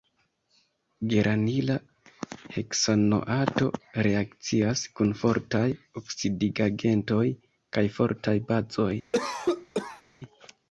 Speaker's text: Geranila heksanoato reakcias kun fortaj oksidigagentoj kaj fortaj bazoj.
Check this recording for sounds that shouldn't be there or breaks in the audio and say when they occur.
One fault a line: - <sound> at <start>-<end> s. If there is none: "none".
- cough at 9.1-10.0 s